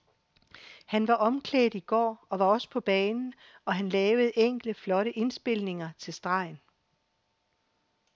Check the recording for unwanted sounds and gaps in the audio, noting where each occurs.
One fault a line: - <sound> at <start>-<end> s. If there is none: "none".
none